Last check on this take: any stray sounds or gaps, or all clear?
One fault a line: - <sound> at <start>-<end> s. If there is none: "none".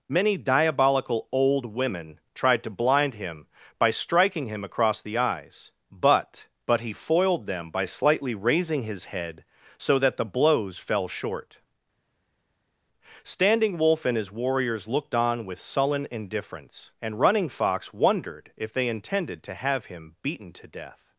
none